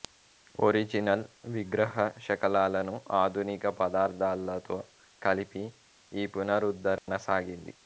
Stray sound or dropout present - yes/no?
yes